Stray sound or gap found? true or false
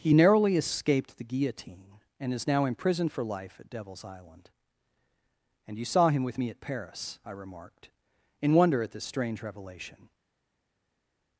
false